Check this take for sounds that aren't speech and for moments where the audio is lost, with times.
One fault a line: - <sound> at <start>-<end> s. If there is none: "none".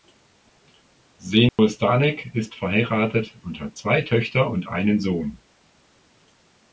- dropout at 1.5-1.6 s